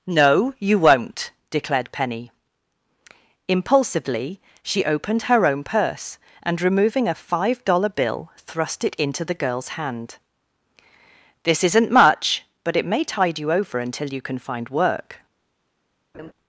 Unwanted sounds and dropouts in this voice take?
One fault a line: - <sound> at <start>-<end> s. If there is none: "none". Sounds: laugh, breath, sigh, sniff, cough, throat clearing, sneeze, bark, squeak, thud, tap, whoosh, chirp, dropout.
- laugh at 16.1-16.3 s